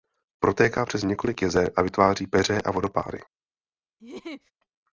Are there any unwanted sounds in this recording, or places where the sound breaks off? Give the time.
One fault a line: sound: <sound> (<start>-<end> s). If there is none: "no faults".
sound: laugh (4.0-4.5 s)